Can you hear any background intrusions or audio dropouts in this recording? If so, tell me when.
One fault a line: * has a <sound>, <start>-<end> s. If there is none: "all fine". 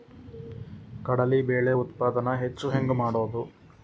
all fine